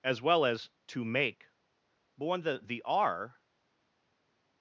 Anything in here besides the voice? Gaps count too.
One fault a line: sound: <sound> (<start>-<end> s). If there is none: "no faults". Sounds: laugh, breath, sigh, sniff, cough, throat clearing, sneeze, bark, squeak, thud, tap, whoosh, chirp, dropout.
no faults